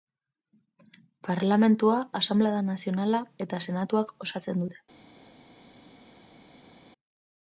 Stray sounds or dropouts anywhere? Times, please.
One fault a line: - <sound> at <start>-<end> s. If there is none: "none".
none